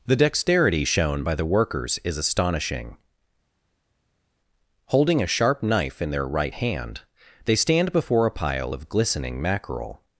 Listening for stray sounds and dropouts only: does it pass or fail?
pass